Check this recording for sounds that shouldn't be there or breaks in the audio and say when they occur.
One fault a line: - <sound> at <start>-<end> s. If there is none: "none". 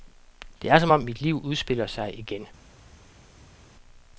none